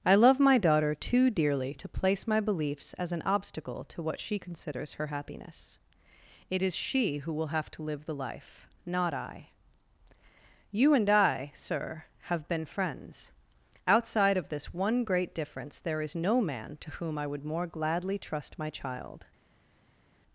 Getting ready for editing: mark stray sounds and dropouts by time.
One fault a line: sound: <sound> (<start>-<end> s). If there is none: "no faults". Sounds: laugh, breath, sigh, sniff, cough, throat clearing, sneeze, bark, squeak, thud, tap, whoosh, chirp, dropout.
no faults